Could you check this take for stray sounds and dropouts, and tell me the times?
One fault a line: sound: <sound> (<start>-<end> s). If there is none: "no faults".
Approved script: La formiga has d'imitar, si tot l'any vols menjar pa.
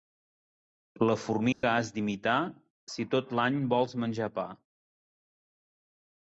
sound: dropout (1.5-1.6 s)